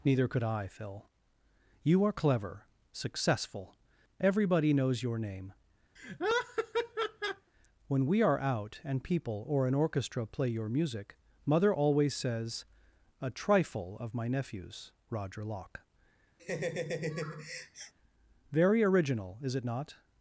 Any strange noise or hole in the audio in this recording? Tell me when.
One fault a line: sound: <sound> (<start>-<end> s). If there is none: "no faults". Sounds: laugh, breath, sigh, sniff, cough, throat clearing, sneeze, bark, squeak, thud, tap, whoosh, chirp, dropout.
sound: laugh (6.0-7.5 s)
sound: laugh (16.4-17.9 s)